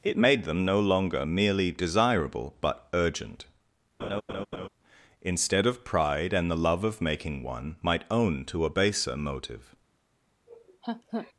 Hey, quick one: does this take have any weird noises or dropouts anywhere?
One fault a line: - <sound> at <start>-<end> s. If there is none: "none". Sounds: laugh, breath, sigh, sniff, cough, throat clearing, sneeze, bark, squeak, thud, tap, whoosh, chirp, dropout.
- laugh at 4.0-4.7 s
- laugh at 10.5-11.3 s